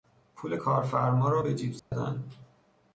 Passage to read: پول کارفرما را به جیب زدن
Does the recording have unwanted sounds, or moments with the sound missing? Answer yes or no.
yes